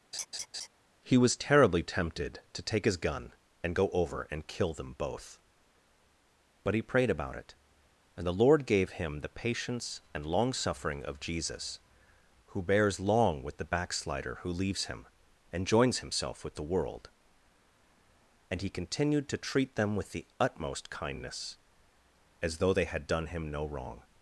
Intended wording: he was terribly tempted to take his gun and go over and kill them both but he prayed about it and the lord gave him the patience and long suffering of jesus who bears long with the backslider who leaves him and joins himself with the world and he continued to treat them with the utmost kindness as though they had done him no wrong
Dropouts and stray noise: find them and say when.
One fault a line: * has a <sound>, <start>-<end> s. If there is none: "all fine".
* has a laugh, 0.1-0.7 s